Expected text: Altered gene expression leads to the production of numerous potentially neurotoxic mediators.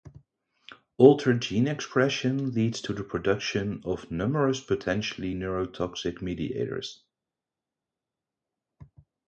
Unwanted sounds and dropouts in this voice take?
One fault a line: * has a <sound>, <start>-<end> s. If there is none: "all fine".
all fine